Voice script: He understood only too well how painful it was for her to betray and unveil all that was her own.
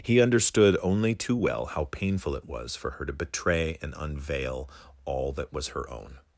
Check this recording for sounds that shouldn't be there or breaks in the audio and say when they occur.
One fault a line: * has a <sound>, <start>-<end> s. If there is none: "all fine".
all fine